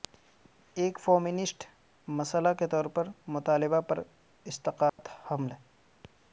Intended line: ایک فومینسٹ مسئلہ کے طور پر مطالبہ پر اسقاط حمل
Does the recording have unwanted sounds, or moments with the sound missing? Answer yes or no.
yes